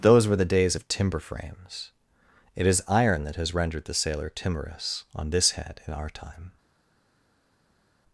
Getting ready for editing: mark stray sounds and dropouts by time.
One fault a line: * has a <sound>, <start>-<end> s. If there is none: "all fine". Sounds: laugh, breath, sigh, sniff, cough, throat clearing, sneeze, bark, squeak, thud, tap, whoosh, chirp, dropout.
all fine